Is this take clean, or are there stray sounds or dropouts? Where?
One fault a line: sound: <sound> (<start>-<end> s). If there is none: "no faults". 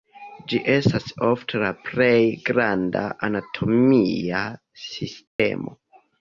sound: dropout (5.3-5.4 s)